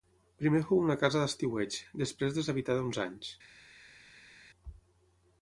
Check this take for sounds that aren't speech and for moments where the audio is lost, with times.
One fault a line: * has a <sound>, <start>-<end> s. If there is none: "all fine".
all fine